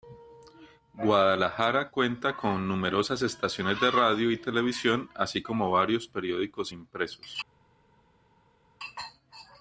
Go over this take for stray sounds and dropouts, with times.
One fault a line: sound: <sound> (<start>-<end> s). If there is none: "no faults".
no faults